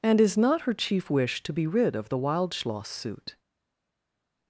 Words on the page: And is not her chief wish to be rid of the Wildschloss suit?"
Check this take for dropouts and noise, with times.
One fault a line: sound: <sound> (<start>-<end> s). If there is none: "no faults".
no faults